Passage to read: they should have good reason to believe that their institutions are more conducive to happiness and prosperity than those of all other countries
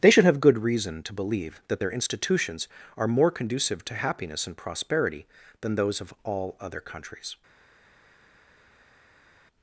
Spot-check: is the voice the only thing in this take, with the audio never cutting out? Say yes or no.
yes